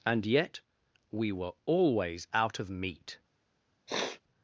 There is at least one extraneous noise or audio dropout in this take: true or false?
true